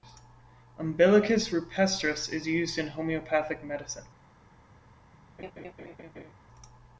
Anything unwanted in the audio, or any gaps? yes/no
yes